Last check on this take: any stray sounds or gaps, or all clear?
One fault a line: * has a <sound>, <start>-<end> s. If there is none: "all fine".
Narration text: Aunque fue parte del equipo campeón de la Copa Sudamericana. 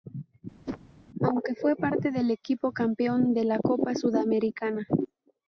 * has a whoosh, 0.7-0.8 s